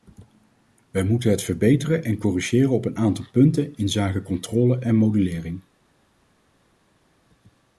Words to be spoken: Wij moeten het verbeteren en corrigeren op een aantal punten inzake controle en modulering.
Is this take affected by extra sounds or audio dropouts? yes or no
no